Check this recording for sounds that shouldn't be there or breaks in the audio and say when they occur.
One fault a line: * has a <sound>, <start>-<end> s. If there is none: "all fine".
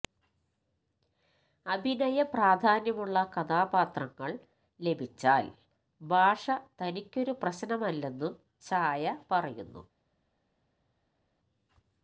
all fine